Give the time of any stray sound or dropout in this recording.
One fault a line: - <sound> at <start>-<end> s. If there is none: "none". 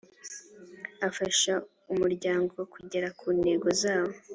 none